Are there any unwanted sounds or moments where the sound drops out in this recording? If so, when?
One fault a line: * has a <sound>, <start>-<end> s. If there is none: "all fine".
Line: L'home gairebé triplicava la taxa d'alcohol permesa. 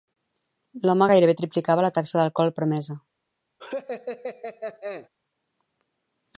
* has a laugh, 3.6-5.1 s